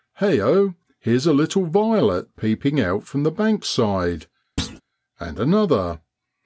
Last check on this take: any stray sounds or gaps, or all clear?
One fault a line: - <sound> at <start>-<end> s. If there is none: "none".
- thud at 4.6-4.8 s